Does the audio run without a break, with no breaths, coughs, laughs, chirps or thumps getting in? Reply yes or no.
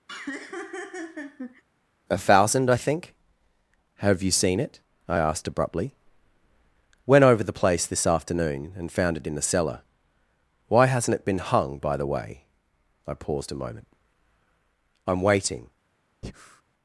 no